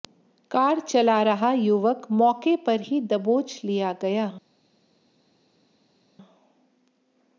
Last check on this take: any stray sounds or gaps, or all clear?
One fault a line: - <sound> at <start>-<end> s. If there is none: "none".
none